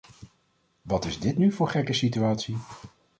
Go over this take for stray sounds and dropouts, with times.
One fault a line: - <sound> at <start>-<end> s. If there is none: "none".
none